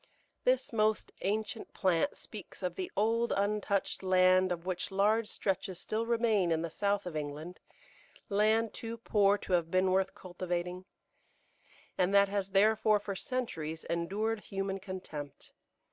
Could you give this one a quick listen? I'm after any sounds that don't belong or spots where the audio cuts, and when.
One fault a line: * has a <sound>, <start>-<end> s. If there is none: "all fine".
all fine